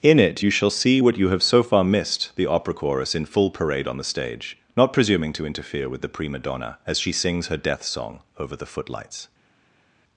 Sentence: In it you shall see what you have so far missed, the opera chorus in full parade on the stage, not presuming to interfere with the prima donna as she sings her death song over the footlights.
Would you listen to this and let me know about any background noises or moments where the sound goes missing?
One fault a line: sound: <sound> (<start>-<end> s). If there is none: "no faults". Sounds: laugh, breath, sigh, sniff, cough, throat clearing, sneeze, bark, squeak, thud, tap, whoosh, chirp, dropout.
no faults